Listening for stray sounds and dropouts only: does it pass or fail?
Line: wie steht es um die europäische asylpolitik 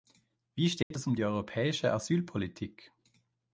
fail